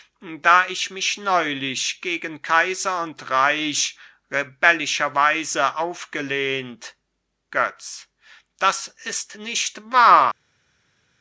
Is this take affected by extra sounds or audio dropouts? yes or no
no